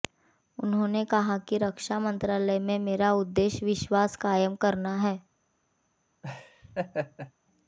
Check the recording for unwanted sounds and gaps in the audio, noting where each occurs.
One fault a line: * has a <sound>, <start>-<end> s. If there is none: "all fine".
* has a laugh, 6.2-7.3 s